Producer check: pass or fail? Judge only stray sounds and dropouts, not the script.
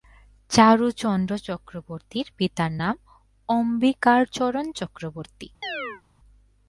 fail